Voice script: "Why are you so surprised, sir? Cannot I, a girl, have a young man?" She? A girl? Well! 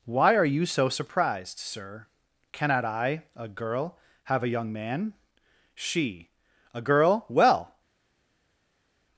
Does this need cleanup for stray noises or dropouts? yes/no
no